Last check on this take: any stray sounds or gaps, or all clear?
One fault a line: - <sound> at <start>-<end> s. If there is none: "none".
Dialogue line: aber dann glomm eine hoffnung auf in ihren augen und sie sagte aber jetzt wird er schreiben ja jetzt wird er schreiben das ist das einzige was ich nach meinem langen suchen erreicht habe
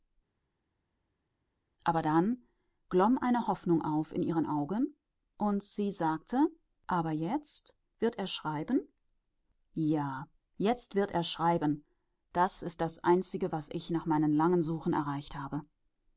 none